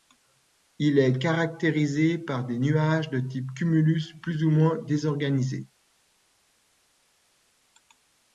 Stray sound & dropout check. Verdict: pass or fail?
pass